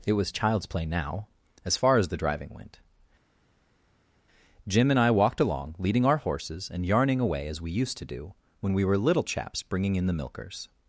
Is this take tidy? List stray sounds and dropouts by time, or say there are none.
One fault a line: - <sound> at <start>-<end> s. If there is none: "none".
none